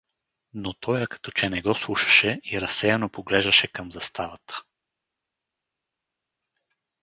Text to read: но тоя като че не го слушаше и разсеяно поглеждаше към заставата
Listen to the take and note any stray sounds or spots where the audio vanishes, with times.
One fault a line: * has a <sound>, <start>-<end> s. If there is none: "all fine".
all fine